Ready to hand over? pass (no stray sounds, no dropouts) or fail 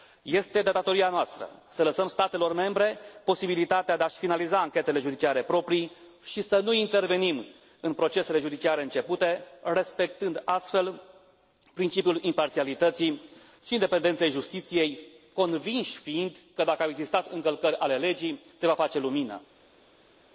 pass